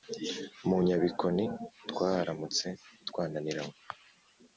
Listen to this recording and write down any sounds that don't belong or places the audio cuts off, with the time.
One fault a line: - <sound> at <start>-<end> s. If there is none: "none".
none